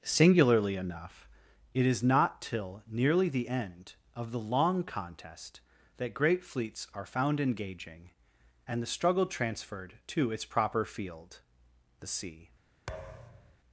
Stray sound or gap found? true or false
true